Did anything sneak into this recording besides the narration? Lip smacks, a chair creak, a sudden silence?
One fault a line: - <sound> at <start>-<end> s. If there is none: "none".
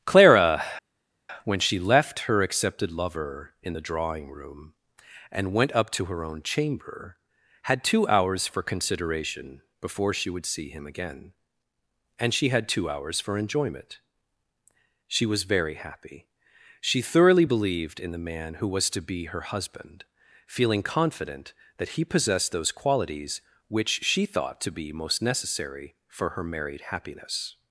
none